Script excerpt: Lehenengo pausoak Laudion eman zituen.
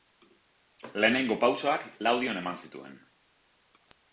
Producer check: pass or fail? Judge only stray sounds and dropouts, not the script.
pass